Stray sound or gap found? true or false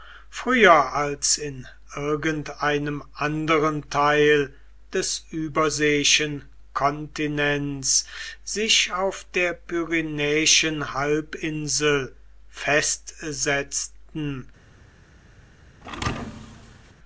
true